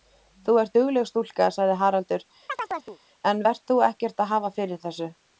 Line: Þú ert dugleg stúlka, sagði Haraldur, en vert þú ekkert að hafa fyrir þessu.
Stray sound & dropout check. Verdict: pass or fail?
fail